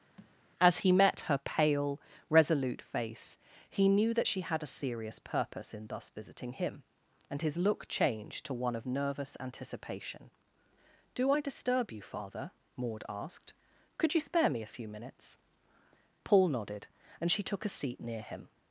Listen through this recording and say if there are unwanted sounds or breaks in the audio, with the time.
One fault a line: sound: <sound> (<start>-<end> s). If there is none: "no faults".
sound: thud (0.2-0.4 s)